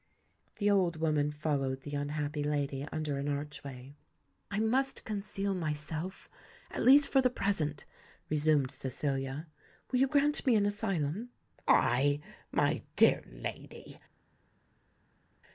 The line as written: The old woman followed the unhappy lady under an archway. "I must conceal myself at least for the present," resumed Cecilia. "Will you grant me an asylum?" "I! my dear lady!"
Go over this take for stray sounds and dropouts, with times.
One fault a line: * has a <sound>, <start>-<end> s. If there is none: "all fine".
all fine